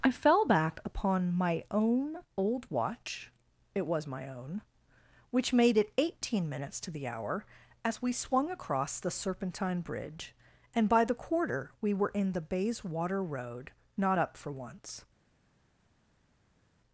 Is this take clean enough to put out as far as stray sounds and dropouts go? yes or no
yes